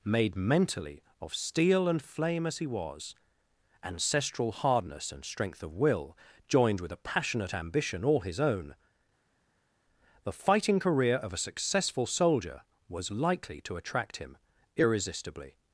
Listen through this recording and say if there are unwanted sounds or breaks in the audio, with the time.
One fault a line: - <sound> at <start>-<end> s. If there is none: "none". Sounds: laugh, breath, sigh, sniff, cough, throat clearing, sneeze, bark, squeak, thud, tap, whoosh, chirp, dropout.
none